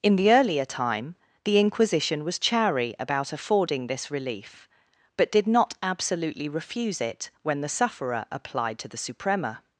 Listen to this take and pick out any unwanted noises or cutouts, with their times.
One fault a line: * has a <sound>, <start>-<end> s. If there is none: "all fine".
all fine